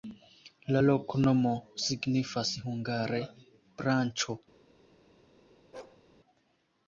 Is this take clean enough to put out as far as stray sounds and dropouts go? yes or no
no